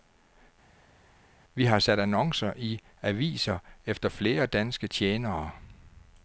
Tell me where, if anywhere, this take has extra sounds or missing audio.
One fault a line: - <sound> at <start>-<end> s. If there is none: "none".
none